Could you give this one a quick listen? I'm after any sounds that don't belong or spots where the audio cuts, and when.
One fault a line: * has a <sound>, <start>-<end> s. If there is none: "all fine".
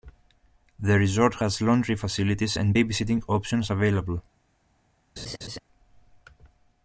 * has a laugh, 5.2-5.6 s